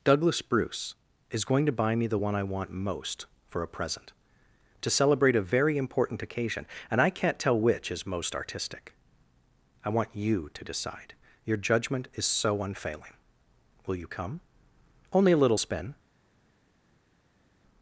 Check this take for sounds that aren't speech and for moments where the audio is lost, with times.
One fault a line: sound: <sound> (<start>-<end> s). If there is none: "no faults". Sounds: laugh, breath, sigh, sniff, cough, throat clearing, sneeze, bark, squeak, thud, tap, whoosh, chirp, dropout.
no faults